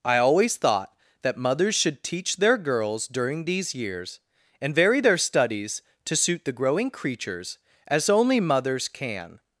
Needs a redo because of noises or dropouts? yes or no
no